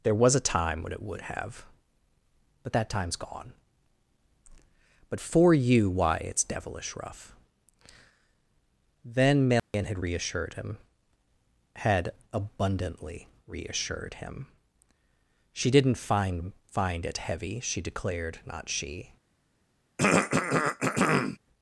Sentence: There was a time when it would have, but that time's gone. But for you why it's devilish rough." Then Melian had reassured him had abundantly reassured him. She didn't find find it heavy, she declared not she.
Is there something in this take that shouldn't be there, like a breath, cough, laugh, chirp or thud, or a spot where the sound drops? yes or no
yes